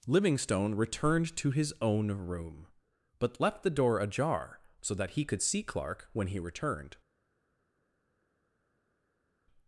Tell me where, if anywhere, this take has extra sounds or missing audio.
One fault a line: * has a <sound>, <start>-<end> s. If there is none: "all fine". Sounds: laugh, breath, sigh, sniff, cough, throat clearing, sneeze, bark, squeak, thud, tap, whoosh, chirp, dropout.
all fine